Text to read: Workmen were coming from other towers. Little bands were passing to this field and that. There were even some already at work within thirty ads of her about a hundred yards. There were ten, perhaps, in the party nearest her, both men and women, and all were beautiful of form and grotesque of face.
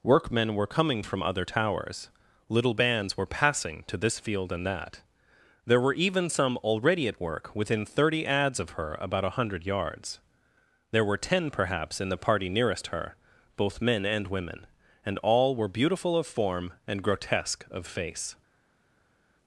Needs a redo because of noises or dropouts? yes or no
no